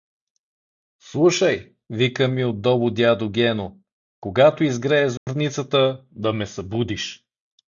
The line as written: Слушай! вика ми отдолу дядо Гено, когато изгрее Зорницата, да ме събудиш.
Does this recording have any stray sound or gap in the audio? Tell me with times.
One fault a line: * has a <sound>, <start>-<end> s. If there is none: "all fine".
* has a dropout, 5.2-5.3 s